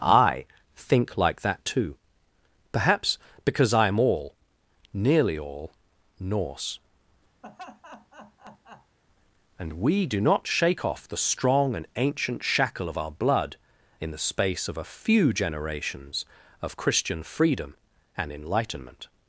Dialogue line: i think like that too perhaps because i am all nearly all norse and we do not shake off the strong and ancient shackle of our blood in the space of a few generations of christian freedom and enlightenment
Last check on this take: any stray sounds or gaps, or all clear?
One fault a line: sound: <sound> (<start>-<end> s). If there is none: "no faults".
sound: laugh (7.4-9.0 s)